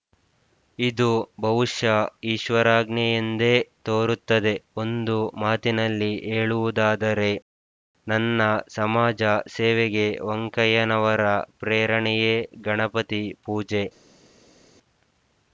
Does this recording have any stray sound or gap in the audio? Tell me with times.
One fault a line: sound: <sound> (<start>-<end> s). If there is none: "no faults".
no faults